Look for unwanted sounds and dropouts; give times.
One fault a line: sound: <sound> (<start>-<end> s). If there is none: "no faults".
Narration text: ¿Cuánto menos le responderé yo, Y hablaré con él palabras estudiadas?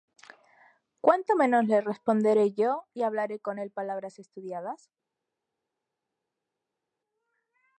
no faults